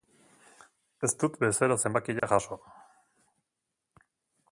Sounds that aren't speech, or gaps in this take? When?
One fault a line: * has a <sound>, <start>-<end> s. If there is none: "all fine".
* has a dropout, 2.2-2.2 s